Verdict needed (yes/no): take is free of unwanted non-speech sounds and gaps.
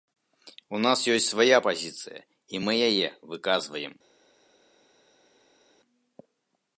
yes